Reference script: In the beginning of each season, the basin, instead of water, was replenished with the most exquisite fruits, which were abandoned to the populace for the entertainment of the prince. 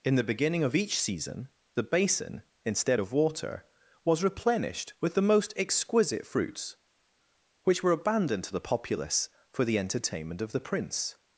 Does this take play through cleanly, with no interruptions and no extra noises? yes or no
yes